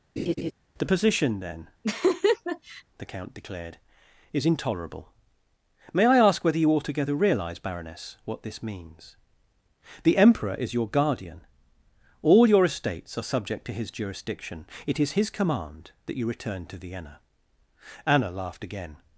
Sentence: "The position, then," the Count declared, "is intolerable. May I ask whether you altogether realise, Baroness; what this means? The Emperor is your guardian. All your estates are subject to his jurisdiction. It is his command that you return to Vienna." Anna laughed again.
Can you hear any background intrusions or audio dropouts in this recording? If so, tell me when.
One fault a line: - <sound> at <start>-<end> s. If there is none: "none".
- laugh at 0.2-0.5 s
- laugh at 1.8-2.8 s